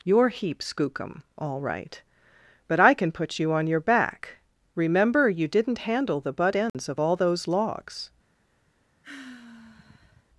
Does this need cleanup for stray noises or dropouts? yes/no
yes